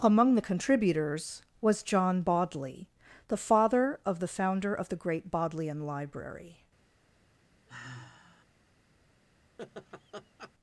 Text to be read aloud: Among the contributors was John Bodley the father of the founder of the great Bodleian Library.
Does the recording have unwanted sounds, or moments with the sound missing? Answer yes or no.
yes